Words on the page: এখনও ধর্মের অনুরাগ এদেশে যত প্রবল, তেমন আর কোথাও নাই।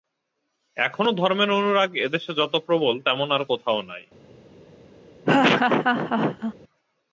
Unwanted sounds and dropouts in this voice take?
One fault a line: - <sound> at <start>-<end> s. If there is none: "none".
- laugh at 5.2-6.5 s